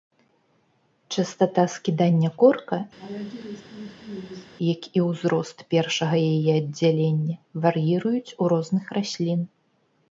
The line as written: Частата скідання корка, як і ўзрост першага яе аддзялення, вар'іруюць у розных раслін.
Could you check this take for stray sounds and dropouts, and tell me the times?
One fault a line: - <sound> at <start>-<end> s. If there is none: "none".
- laugh at 3.0-4.5 s